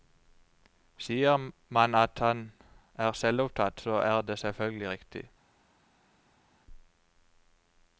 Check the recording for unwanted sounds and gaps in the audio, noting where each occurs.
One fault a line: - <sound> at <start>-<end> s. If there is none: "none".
none